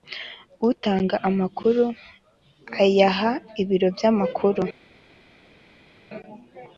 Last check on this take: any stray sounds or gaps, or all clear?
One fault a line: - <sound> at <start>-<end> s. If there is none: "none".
none